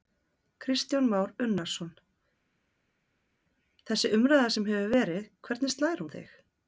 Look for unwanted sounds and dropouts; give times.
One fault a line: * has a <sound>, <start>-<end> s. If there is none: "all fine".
all fine